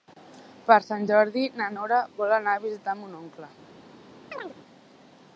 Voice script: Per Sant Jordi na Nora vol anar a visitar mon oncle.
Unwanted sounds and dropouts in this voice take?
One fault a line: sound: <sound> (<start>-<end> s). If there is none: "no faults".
sound: chirp (4.3-4.6 s)